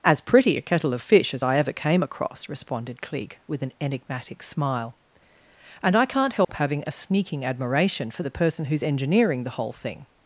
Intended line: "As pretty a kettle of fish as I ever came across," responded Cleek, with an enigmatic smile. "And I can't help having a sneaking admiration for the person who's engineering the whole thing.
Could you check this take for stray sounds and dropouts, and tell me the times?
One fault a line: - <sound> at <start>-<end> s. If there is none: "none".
- dropout at 6.4-6.5 s